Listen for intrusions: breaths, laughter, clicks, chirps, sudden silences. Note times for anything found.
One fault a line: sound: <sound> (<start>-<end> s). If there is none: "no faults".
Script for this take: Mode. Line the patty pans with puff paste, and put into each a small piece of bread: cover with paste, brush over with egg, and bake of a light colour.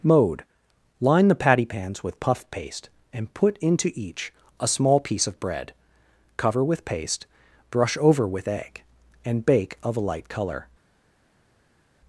no faults